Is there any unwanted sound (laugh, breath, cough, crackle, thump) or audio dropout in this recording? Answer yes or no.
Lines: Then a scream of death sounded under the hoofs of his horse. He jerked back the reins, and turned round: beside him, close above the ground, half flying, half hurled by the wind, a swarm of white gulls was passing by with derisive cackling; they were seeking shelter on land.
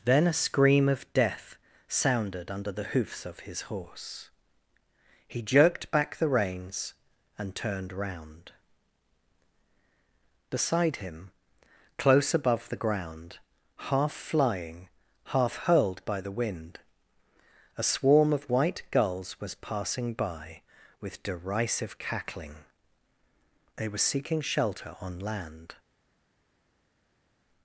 no